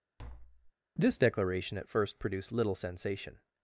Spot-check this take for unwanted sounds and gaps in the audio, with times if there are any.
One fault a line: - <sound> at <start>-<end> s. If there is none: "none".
- tap at 0.2-0.7 s